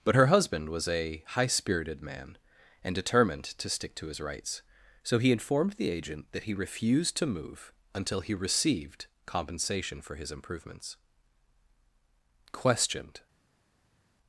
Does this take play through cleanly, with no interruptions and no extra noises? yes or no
yes